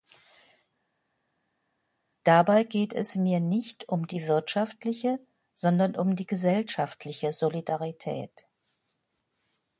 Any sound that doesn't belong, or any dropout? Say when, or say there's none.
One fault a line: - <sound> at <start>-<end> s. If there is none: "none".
none